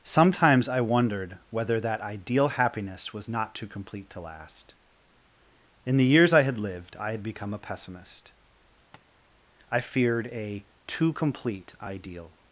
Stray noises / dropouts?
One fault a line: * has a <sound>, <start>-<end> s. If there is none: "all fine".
* has a tap, 8.9-9.0 s